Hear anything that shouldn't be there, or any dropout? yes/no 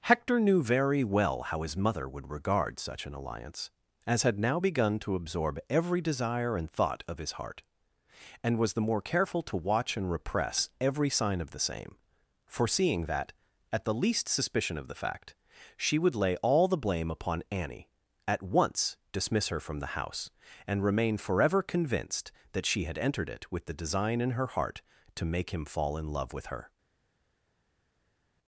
no